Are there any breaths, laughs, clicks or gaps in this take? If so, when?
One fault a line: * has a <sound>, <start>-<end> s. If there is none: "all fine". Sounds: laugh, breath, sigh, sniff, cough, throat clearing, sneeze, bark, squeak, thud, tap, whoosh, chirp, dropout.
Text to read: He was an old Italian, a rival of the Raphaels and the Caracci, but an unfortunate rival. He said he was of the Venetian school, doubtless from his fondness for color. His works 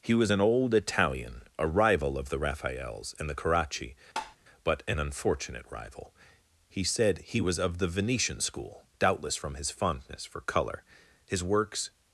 * has a tap, 4.2-4.4 s